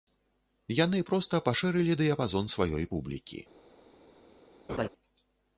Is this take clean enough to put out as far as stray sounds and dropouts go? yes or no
no